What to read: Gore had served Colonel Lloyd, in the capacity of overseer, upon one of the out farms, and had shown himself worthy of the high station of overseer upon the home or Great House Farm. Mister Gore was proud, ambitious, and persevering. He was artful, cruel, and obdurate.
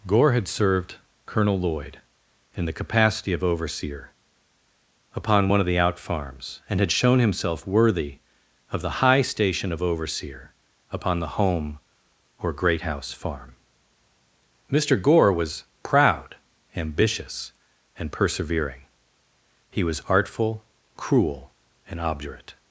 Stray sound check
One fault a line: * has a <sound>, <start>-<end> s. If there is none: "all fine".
all fine